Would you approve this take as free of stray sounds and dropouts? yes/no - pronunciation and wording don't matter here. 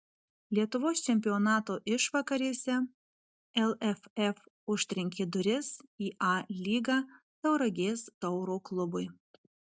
yes